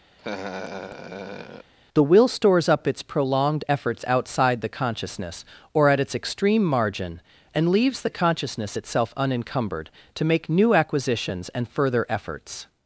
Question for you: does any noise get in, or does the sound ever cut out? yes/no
yes